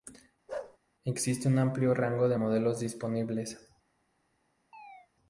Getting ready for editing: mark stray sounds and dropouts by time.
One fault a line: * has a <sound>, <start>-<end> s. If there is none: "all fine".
* has a bark, 0.5-0.8 s
* has a chirp, 4.7-5.1 s